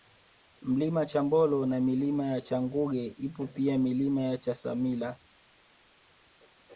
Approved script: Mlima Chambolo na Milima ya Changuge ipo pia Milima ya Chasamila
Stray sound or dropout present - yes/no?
no